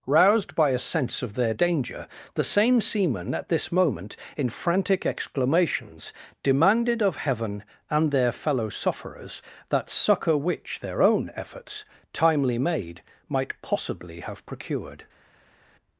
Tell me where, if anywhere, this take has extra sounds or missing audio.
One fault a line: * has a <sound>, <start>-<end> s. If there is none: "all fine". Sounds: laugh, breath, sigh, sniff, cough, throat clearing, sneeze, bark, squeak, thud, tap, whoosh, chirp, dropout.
all fine